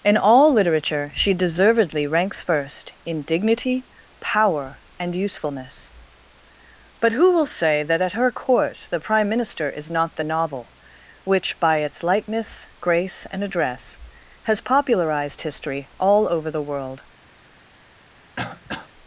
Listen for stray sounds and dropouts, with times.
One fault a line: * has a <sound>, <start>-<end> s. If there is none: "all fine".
* has a throat clearing, 18.4-18.9 s